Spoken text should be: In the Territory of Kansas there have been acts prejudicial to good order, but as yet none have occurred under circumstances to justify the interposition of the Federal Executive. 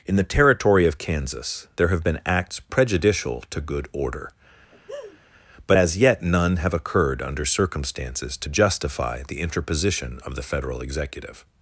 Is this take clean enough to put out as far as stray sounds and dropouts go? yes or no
no